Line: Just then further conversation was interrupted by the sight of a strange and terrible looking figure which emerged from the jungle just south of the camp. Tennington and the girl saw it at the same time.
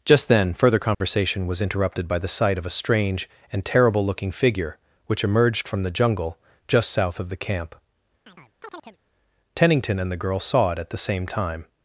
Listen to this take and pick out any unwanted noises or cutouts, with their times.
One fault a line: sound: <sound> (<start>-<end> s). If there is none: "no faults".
sound: dropout (0.9-1.0 s)
sound: chirp (8.3-9.0 s)